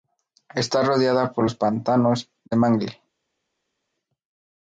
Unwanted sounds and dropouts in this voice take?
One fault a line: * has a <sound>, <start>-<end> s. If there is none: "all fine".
all fine